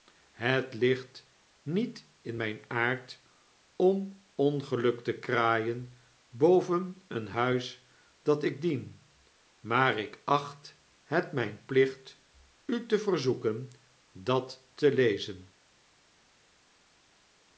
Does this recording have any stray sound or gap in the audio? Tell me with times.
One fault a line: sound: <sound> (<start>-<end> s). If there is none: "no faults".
no faults